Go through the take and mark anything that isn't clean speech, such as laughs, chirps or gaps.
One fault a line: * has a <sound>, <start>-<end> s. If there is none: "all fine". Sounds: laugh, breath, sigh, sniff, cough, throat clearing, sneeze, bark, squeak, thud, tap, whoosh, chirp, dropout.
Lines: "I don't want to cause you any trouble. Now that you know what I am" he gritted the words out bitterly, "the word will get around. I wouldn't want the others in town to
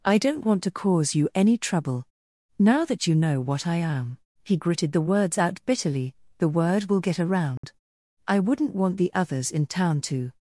* has a dropout, 7.6-7.6 s